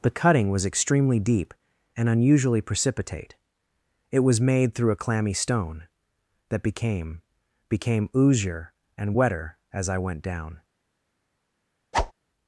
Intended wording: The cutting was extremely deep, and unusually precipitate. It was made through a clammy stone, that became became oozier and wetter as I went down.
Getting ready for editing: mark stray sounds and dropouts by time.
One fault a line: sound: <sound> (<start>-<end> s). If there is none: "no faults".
sound: whoosh (11.9-12.1 s)